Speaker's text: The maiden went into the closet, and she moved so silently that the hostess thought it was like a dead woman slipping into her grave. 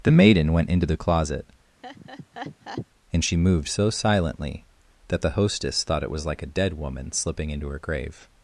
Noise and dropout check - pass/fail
fail